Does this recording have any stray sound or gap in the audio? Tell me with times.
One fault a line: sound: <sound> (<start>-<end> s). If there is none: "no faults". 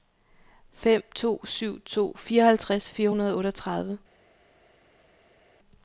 no faults